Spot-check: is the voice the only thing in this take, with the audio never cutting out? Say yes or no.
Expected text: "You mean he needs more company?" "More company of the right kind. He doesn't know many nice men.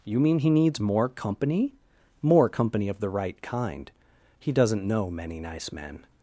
yes